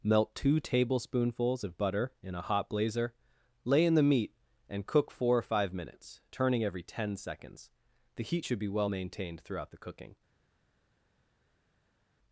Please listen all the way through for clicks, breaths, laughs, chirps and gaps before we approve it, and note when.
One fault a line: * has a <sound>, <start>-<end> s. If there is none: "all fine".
all fine